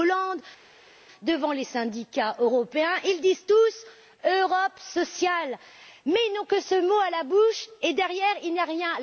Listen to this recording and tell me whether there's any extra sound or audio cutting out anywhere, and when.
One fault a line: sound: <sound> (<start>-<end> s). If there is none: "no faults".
no faults